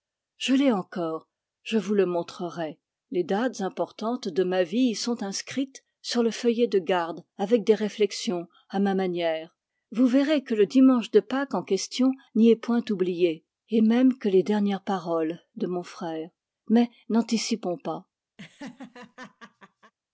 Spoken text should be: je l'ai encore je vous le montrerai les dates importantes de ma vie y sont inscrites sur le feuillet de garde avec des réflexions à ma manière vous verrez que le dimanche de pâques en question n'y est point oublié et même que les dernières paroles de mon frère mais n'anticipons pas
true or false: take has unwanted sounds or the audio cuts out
true